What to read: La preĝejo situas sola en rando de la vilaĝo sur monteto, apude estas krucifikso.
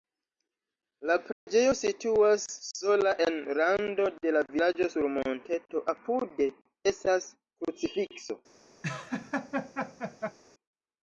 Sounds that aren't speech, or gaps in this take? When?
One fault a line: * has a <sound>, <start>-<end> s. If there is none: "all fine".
* has a dropout, 1.3-1.5 s
* has a laugh, 8.8-10.4 s